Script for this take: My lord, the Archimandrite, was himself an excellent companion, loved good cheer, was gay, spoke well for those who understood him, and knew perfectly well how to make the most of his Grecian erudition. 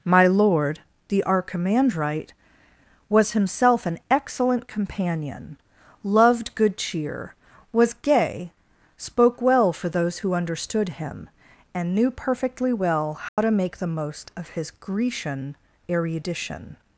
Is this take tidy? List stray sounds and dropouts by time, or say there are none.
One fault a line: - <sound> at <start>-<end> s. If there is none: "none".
- dropout at 13.3-13.4 s